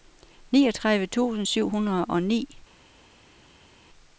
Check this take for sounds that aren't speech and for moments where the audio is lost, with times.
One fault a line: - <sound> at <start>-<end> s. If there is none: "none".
none